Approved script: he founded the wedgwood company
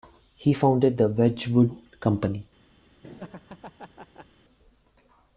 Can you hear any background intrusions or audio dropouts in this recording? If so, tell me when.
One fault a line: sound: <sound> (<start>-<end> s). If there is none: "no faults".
sound: laugh (3.0-4.3 s)